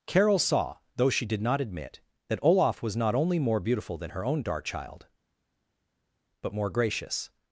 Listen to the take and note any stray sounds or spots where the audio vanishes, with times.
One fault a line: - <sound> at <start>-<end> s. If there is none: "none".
none